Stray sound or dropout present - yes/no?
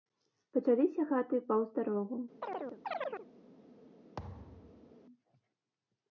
yes